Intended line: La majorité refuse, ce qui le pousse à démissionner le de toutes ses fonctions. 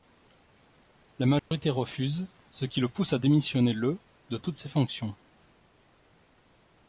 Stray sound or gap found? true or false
true